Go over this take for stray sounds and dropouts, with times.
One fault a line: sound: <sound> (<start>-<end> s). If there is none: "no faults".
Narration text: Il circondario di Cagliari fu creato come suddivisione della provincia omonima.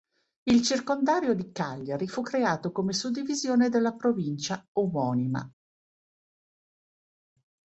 no faults